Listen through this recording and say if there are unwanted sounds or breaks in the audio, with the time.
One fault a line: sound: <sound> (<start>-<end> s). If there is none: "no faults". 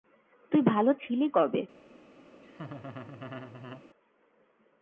sound: laugh (2.4-3.8 s)